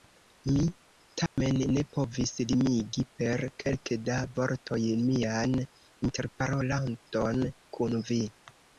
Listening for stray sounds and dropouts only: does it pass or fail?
fail